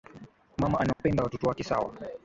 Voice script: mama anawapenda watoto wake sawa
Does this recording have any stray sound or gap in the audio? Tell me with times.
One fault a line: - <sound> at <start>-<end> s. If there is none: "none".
- dropout at 0.9-1.0 s